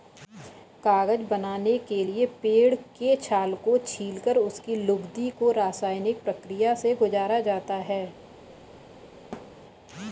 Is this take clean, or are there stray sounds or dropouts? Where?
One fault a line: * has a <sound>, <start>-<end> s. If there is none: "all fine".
* has a thud, 9.3-9.6 s